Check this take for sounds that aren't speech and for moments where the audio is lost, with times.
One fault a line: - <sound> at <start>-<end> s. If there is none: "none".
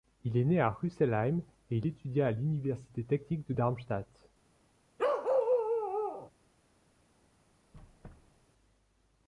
- bark at 5.0-6.3 s
- squeak at 7.7-8.5 s